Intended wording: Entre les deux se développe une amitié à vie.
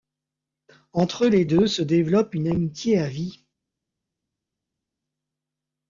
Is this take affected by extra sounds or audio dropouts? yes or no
no